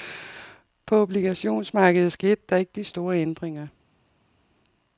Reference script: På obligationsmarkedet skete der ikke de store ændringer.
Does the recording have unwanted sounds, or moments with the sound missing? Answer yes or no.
no